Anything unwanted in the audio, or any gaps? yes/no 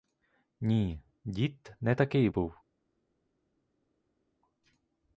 no